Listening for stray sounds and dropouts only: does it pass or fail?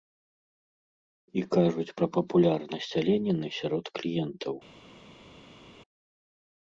pass